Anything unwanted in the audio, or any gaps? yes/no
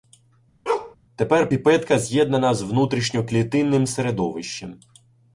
yes